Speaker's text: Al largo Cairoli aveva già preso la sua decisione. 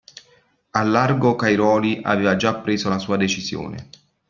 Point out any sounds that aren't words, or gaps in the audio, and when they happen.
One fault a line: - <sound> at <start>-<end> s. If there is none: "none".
none